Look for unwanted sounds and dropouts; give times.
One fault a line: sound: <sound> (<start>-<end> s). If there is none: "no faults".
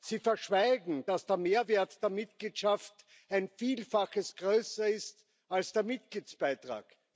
no faults